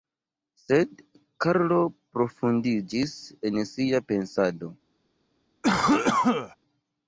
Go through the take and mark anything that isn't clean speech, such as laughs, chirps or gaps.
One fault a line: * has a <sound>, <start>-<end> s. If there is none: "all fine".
* has a cough, 5.6-6.6 s